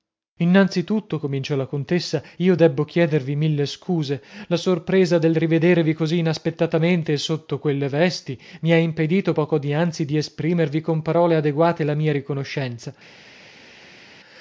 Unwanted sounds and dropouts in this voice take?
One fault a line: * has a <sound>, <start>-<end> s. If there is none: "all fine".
all fine